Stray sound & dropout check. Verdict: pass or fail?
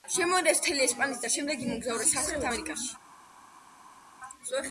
pass